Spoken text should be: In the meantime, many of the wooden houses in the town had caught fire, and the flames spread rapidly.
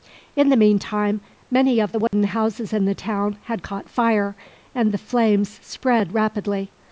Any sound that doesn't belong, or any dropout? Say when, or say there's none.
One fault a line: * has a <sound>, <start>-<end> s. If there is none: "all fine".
* has a dropout, 2.1-2.1 s